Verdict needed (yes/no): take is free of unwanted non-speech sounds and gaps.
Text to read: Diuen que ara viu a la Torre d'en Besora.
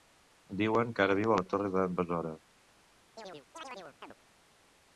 no